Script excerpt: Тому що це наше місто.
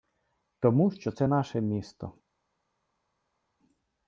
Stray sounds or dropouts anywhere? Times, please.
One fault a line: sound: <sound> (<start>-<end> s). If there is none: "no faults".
no faults